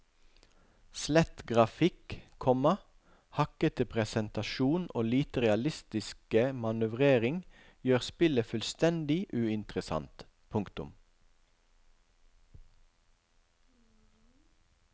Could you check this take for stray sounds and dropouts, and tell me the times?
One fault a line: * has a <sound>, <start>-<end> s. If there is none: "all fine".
all fine